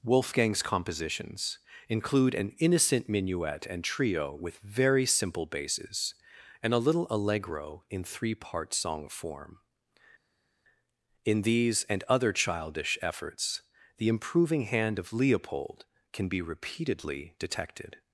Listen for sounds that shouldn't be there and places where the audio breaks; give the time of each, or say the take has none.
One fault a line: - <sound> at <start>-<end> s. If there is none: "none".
none